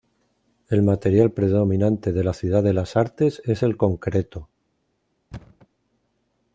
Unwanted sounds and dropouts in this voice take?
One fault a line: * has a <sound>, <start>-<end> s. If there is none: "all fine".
* has a thud, 5.3-5.7 s